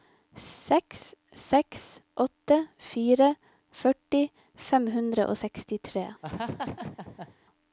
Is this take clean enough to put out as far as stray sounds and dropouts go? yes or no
no